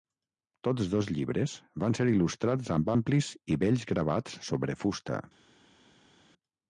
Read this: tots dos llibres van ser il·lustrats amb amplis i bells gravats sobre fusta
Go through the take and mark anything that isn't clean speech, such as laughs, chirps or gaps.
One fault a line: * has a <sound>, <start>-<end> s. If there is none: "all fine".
all fine